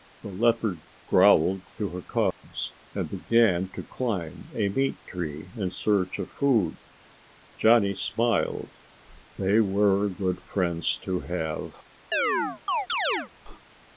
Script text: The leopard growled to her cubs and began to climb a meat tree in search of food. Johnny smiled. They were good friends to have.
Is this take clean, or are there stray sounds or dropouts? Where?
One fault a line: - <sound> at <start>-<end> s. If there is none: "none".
- dropout at 2.3-2.4 s
- chirp at 12.1-13.3 s